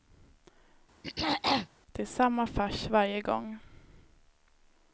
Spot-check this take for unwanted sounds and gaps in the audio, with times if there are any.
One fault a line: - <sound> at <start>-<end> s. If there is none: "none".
- throat clearing at 1.0-1.7 s